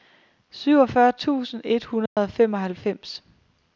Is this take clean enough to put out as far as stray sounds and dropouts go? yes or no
no